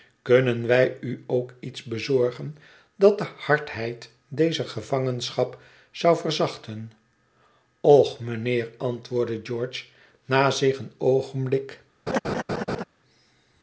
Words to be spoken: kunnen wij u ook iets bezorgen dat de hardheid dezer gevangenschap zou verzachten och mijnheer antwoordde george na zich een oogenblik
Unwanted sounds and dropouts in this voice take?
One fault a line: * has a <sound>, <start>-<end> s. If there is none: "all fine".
* has a laugh, 12.1-12.8 s